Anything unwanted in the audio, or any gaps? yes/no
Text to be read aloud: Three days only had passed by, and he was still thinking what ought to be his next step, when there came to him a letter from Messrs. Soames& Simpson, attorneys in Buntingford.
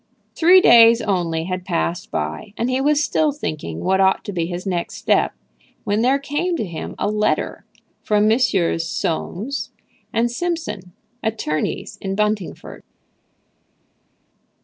no